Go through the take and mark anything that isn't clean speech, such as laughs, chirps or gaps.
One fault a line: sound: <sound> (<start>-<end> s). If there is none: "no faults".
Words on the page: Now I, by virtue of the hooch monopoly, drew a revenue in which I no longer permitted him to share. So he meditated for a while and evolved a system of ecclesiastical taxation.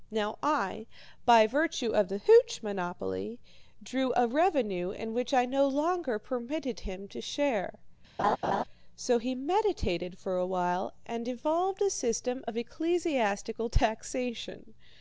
sound: laugh (8.2-8.6 s)